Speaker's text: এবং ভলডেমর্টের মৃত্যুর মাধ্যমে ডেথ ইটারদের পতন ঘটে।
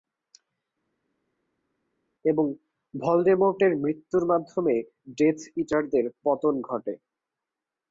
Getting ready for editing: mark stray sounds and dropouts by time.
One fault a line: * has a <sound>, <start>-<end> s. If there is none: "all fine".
all fine